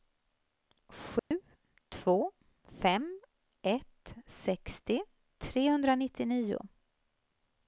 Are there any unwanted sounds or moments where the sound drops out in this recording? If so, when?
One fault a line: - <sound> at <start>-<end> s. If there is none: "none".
- dropout at 1.2-1.3 s